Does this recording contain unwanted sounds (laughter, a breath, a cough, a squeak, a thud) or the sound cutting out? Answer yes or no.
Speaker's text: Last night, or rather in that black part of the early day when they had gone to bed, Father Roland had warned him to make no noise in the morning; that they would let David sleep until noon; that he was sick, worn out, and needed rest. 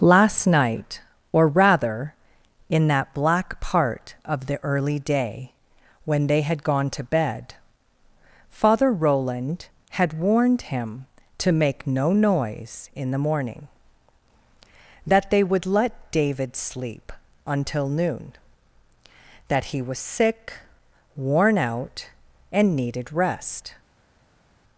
no